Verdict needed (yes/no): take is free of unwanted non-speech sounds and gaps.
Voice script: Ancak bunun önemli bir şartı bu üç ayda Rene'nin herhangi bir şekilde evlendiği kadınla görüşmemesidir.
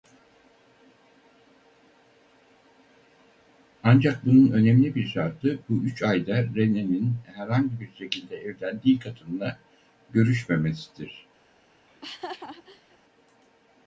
no